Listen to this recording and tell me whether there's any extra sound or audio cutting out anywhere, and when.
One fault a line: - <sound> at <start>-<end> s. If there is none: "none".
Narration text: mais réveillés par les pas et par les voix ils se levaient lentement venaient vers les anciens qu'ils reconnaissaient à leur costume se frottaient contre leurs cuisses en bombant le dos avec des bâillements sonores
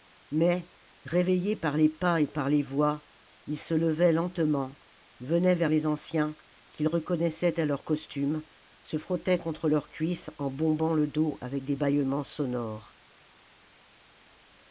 none